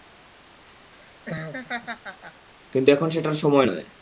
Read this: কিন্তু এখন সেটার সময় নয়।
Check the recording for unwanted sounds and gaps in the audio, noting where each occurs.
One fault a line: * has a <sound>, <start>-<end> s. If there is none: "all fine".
* has a laugh, 0.9-2.5 s